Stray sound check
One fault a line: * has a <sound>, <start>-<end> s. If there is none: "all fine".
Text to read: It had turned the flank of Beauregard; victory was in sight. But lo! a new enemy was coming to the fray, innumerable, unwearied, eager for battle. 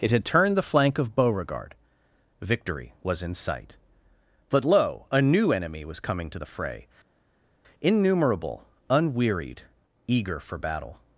all fine